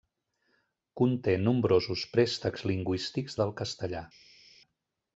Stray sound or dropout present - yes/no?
no